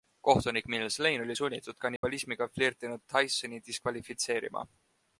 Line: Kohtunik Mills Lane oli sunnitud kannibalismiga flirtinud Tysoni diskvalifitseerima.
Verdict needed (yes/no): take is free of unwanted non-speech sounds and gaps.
no